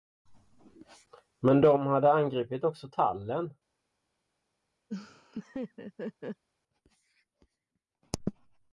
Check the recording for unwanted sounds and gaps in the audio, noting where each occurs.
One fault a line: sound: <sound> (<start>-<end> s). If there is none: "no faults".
sound: laugh (4.9-6.4 s)